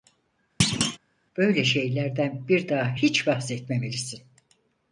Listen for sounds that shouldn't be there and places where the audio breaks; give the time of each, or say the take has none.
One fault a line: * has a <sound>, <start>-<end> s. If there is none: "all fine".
* has a thud, 0.6-1.0 s